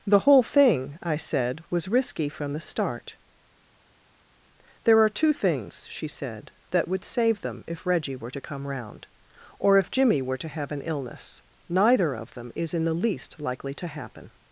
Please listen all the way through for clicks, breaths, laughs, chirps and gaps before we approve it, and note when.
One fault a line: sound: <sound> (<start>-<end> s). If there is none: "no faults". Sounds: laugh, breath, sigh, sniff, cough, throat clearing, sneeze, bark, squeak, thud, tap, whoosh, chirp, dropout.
no faults